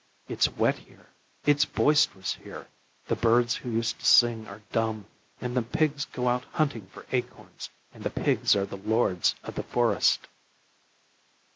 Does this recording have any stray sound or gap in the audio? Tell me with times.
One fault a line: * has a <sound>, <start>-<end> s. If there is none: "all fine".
all fine